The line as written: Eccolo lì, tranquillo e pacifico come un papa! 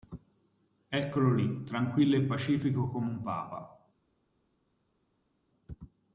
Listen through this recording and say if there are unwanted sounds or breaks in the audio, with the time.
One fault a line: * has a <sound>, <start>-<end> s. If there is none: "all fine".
all fine